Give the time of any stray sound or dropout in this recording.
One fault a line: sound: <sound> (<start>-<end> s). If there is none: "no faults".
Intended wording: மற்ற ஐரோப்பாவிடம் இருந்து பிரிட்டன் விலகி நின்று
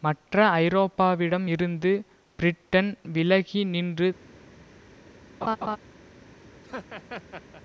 sound: laugh (5.4-5.8 s)
sound: laugh (6.6-7.6 s)